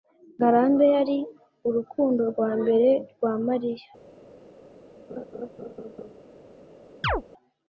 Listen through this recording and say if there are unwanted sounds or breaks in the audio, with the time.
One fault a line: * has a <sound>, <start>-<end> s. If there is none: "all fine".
* has a laugh, 5.1-6.1 s
* has a chirp, 7.0-7.2 s